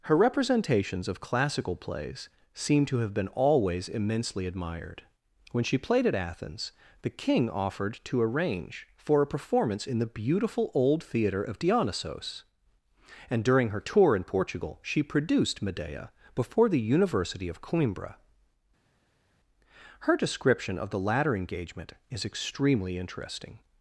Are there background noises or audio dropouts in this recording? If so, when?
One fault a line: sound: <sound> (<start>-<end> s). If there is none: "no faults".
no faults